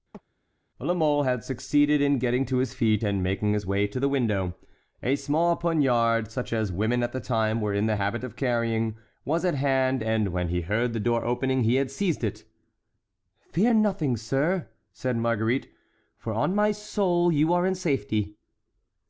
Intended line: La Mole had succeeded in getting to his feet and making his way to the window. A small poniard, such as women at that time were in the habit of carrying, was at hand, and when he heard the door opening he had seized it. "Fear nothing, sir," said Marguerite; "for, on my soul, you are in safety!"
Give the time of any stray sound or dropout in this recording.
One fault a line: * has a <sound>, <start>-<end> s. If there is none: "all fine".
* has a chirp, 0.1-0.2 s